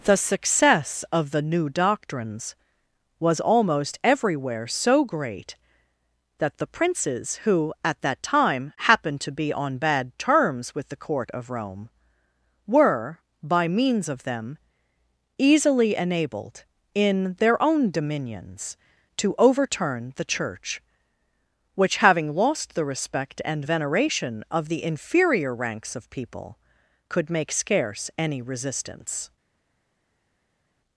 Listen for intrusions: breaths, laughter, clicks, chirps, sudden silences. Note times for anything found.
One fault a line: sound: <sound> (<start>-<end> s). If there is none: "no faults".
no faults